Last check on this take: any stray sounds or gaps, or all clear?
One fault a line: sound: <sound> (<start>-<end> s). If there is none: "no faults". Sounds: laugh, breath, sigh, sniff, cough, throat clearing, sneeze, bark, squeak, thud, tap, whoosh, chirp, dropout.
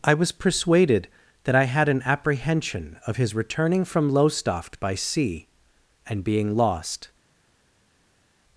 no faults